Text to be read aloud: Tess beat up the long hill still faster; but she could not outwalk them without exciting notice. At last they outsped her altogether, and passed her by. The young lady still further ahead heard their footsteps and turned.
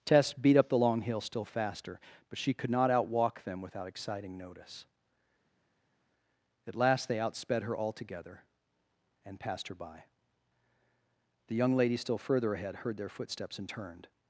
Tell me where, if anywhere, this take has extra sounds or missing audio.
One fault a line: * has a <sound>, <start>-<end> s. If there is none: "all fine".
all fine